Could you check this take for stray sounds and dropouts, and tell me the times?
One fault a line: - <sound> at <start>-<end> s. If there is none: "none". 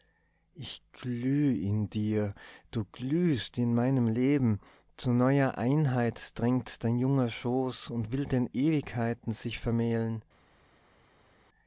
none